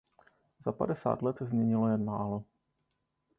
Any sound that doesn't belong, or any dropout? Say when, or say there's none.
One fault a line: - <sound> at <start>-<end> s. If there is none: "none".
none